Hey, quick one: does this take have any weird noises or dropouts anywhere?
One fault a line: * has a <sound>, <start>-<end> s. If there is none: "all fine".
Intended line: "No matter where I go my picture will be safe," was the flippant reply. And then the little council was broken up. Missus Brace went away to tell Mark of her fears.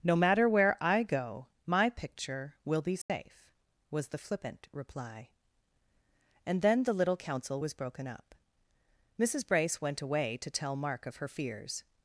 * has a dropout, 3.0-3.1 s